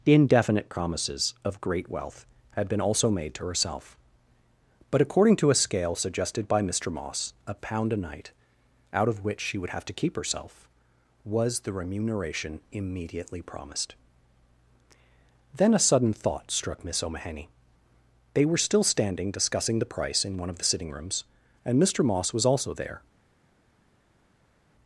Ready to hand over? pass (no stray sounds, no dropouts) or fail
pass